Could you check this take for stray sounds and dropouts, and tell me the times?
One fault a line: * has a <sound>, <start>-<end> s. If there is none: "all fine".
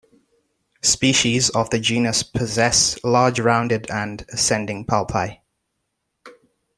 all fine